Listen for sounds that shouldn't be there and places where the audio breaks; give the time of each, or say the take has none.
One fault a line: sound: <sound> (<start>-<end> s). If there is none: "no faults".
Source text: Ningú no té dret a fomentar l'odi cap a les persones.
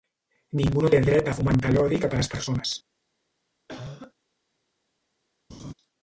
sound: cough (3.7-4.1 s)
sound: laugh (5.5-5.7 s)